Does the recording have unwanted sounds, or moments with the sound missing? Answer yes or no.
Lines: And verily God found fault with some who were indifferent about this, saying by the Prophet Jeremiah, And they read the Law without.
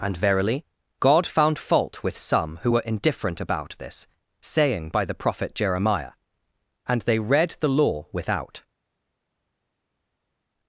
no